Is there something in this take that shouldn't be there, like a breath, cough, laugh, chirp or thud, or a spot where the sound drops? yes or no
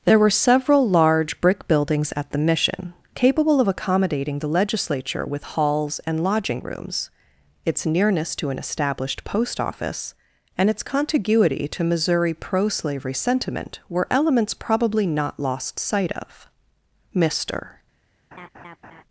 yes